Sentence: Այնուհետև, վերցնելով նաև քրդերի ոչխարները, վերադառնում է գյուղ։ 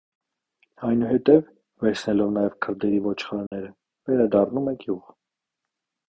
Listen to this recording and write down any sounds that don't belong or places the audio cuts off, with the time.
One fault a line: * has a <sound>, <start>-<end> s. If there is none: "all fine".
* has a dropout, 3.5-3.5 s